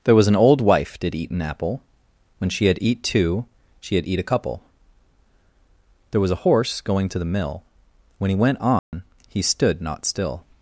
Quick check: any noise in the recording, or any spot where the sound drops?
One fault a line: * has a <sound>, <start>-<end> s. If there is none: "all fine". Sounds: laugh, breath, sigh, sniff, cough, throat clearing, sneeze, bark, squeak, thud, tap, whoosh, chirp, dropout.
* has a dropout, 8.8-8.9 s